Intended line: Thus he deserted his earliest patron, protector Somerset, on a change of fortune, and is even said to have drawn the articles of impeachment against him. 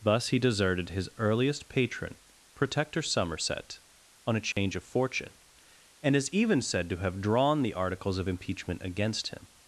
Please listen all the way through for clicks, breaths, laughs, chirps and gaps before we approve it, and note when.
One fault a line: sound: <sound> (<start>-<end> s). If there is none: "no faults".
sound: dropout (4.5-4.6 s)